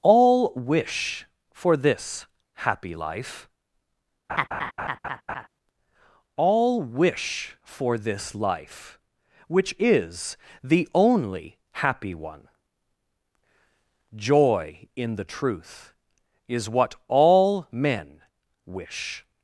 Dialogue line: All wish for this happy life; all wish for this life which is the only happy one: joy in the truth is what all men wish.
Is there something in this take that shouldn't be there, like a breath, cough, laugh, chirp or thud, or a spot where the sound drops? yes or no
yes